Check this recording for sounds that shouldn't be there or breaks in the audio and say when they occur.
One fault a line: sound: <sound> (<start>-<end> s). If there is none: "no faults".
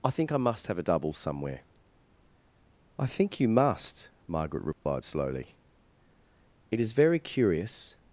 sound: dropout (4.7-4.9 s)